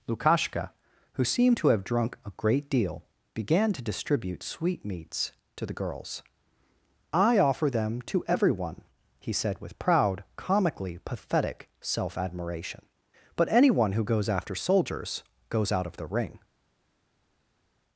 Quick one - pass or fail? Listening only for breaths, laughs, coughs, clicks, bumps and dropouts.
pass